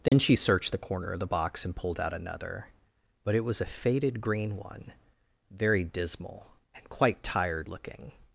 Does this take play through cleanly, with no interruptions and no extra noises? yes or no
no